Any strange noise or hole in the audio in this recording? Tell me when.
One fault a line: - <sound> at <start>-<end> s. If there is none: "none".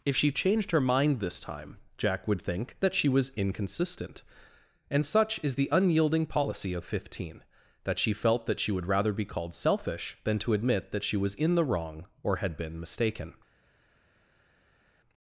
none